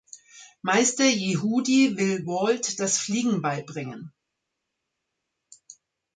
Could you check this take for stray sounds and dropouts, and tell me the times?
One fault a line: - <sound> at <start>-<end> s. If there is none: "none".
none